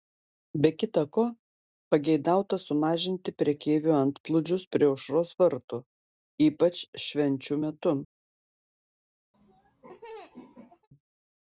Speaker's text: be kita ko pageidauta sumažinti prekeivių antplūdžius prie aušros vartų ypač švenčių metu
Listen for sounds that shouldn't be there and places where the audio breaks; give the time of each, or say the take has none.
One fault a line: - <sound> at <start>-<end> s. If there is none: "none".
- laugh at 9.3-10.9 s